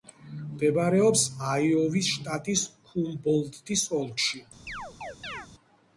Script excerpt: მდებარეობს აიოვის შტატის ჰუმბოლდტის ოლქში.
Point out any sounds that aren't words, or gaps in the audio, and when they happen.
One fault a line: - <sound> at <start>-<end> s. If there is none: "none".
- chirp at 4.7-5.5 s